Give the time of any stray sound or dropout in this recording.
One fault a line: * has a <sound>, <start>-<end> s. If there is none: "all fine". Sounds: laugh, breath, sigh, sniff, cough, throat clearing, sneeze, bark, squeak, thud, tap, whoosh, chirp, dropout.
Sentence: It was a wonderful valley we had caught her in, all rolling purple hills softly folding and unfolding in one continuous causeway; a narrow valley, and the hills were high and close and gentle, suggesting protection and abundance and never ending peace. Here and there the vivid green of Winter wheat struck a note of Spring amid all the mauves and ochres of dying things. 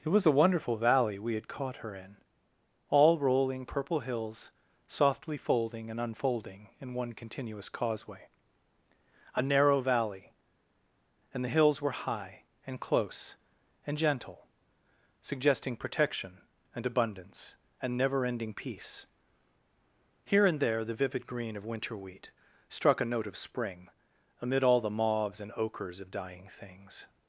all fine